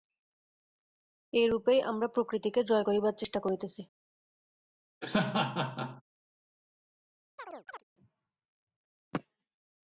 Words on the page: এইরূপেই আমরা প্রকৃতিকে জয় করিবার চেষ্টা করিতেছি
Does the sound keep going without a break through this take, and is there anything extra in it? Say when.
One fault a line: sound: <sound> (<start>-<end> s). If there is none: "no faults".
sound: laugh (5.0-6.0 s)
sound: chirp (7.4-7.8 s)